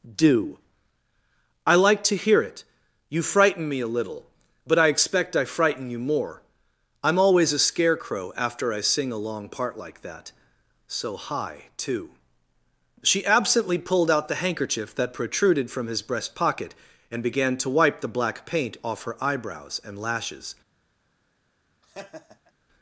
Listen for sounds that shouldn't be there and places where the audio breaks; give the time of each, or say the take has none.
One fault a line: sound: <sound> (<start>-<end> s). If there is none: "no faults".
sound: laugh (21.8-22.5 s)